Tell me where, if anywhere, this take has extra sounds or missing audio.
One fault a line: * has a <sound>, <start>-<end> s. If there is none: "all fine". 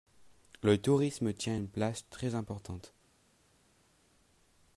all fine